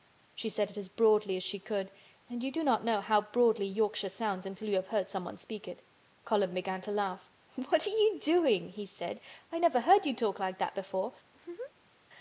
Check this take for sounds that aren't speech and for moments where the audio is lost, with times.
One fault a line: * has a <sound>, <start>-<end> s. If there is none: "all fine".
* has a laugh, 11.3-11.9 s